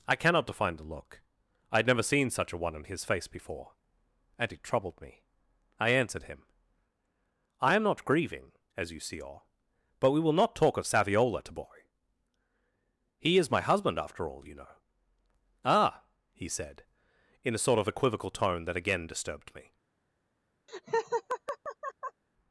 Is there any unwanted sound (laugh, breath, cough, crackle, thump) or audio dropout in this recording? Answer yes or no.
yes